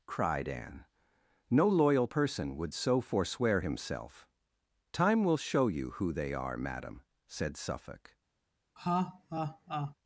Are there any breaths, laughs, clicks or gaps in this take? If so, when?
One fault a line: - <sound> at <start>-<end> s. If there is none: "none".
- laugh at 8.8-9.9 s